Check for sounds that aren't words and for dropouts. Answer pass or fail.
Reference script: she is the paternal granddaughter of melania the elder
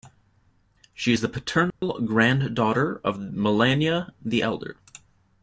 fail